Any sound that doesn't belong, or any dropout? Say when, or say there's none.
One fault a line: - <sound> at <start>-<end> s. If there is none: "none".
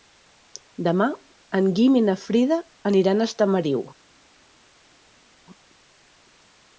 none